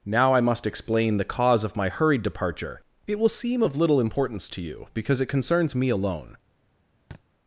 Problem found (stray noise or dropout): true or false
true